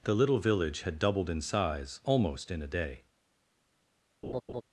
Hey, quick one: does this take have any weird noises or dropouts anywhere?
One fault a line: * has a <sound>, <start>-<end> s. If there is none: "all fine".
* has a laugh, 4.2-4.6 s